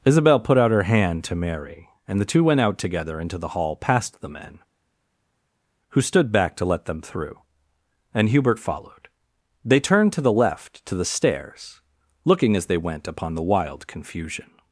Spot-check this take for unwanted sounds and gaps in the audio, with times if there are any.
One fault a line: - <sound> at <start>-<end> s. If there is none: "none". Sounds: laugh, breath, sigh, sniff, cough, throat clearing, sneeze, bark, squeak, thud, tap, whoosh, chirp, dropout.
none